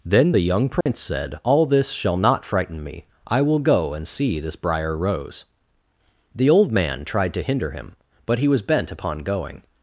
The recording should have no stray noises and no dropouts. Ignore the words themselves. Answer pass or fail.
fail